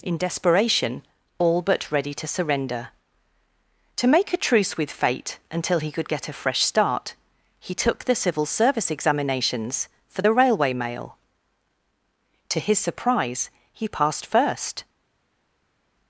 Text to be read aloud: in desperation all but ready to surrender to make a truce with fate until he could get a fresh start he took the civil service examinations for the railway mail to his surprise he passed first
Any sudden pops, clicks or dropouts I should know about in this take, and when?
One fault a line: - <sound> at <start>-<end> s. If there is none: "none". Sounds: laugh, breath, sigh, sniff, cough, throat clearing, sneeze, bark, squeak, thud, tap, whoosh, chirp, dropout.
none